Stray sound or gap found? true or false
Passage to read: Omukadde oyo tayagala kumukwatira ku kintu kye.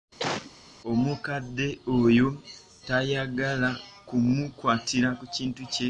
true